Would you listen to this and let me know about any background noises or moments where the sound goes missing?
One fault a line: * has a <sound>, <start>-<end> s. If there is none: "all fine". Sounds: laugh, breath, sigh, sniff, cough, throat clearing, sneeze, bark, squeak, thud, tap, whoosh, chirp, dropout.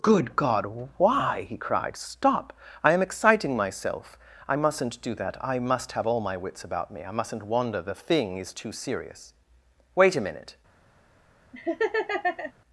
* has a laugh, 11.5-12.5 s